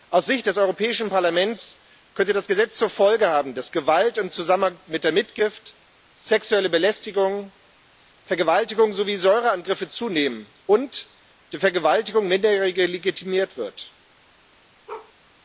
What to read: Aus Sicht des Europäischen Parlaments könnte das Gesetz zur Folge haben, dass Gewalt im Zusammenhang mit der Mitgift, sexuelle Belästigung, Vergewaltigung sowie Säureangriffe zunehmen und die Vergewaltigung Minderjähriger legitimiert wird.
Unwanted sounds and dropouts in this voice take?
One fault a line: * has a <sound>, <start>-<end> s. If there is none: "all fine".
* has a bark, 14.9-15.1 s